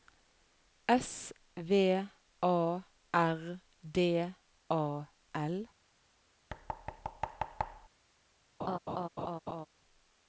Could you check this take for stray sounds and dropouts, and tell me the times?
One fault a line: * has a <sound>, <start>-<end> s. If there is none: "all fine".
* has a thud, 6.5-7.9 s
* has a laugh, 8.6-9.7 s